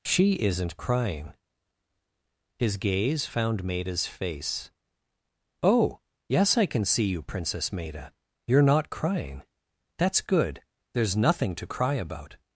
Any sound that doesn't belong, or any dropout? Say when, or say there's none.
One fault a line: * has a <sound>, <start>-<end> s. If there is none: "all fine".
all fine